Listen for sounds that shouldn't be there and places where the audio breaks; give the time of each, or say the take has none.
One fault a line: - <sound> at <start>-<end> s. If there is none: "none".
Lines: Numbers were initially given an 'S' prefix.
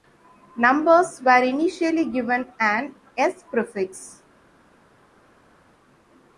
none